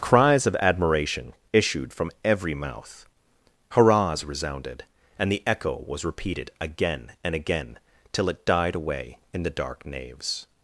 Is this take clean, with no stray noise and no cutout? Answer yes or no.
yes